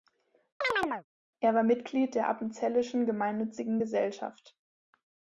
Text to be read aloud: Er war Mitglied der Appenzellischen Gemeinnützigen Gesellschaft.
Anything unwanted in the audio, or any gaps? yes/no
yes